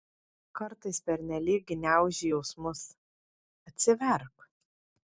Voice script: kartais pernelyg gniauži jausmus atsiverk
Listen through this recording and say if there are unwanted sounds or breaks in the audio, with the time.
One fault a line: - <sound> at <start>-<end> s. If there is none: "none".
none